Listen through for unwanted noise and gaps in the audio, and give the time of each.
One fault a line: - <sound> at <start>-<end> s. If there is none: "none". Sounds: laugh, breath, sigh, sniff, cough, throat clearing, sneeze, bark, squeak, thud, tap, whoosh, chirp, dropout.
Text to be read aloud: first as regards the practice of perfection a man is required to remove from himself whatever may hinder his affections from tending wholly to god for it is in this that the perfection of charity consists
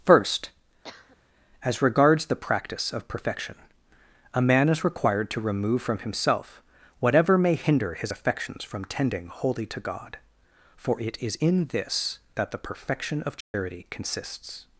- cough at 0.8-1.2 s
- dropout at 13.4-13.5 s